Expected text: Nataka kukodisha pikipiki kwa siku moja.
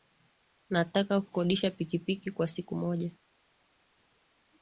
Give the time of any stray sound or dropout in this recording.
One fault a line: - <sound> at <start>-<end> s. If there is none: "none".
none